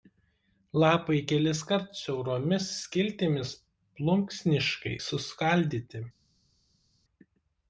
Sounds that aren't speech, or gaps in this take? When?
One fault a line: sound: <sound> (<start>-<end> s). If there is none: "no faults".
no faults